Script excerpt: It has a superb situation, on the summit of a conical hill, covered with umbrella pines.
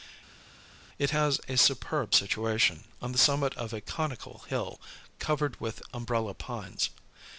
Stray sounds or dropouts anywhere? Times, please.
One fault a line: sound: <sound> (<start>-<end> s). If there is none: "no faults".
no faults